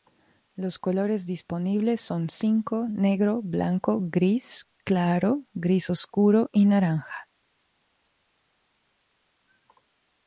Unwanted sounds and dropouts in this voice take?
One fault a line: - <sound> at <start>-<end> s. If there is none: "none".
none